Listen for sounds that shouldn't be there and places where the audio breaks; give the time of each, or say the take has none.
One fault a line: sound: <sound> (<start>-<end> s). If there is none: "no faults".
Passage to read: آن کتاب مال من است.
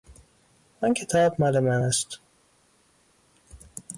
no faults